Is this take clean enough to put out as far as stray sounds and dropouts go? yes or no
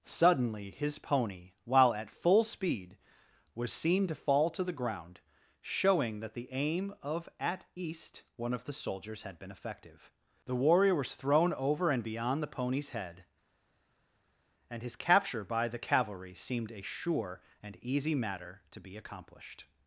yes